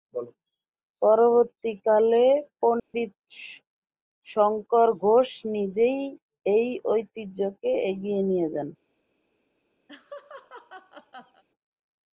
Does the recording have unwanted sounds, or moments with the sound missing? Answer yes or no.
yes